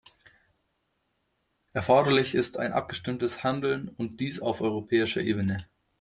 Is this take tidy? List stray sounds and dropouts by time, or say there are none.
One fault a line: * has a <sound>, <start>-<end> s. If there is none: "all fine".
all fine